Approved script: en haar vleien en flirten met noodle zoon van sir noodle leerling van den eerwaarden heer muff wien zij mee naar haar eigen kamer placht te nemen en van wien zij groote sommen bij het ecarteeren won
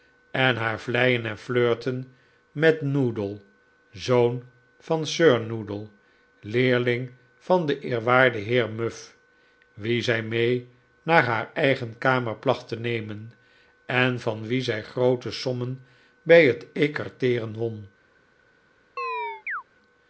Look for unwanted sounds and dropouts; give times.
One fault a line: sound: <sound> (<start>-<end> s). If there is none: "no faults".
sound: chirp (19.0-19.6 s)